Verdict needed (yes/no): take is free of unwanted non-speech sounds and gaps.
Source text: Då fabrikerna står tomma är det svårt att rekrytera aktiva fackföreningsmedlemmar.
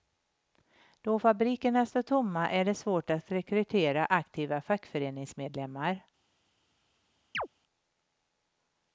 no